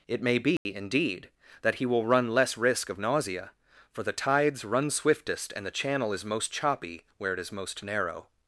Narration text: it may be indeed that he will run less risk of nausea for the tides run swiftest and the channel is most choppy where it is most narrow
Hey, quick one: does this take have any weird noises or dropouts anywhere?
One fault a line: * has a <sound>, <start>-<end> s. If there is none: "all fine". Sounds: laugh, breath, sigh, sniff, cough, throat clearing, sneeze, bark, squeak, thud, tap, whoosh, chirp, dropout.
* has a dropout, 0.6-0.7 s